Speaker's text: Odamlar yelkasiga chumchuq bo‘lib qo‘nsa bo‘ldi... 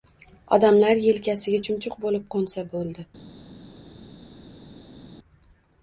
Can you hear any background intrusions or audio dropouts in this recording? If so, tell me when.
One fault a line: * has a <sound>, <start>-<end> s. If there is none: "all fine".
all fine